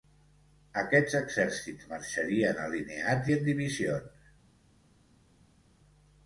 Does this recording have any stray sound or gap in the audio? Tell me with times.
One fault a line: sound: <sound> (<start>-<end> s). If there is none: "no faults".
no faults